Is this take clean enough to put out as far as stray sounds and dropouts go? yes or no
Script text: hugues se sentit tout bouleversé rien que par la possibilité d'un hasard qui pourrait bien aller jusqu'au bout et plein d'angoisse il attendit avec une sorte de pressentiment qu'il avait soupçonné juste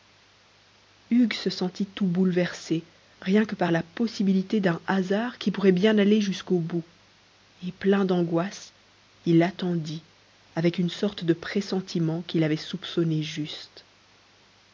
yes